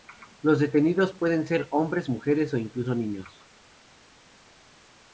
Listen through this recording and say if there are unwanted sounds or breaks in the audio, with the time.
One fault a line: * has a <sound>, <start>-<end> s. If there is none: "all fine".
all fine